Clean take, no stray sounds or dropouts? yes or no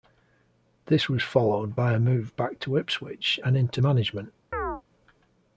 no